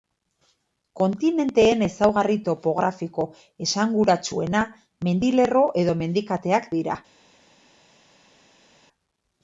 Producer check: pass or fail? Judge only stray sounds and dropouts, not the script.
pass